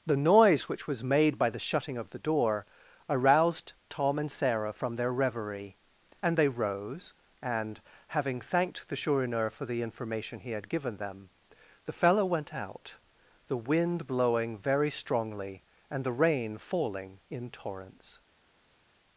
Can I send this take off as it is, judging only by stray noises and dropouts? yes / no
yes